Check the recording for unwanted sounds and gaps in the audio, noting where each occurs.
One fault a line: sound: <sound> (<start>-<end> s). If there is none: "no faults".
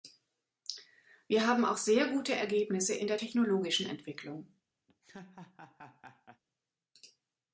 sound: laugh (4.9-6.4 s)